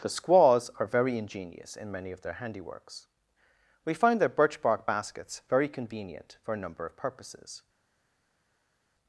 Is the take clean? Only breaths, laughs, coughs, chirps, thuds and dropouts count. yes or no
yes